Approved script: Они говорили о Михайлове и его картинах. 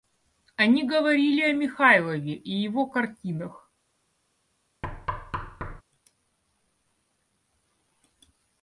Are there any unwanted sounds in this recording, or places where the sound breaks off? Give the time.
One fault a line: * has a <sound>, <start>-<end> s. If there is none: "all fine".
* has a thud, 4.8-5.8 s